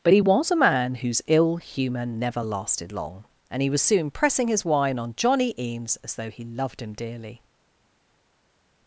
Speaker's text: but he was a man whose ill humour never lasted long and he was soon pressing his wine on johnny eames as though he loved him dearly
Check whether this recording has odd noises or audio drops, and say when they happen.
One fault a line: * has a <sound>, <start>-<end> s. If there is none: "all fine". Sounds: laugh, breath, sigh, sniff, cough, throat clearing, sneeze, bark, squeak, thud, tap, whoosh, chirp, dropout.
all fine